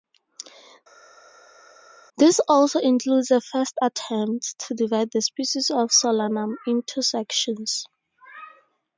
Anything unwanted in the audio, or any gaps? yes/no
no